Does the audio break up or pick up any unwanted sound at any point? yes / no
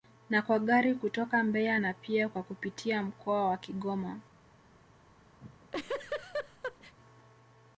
yes